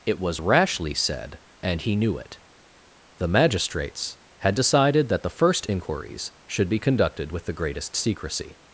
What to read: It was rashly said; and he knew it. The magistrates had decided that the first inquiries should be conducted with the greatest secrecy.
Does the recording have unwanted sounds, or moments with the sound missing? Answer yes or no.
no